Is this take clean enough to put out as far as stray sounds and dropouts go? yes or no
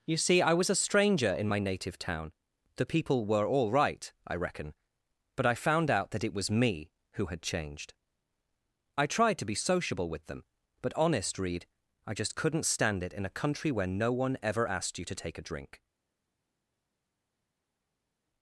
yes